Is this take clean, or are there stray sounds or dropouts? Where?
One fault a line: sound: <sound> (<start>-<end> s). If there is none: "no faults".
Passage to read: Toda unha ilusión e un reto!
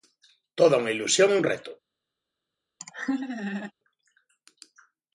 sound: laugh (2.8-3.7 s)